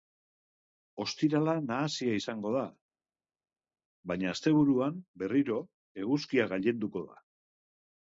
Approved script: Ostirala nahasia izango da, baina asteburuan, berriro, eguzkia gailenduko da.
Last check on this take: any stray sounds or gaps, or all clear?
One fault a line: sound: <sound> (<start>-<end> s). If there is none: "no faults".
no faults